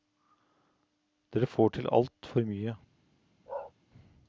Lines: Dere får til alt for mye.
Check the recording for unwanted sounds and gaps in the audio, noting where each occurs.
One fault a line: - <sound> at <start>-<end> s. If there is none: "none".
- bark at 3.5-3.7 s